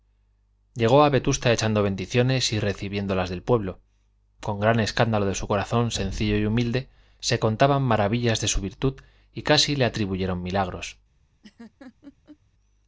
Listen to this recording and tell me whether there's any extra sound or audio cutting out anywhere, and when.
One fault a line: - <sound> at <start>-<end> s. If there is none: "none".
- laugh at 11.4-12.4 s